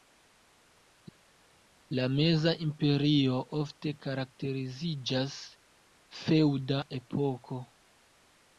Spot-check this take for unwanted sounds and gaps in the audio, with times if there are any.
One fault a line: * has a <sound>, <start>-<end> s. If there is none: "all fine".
all fine